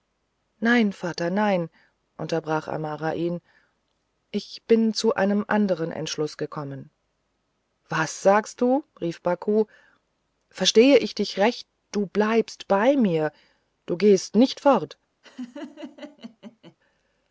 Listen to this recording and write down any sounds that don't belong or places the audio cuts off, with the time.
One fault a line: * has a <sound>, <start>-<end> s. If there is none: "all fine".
* has a laugh, 15.2-16.8 s